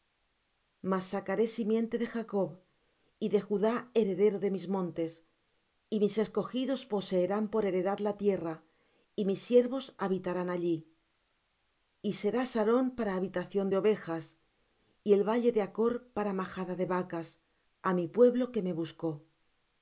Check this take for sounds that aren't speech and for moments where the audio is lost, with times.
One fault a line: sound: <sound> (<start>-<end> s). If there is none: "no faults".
no faults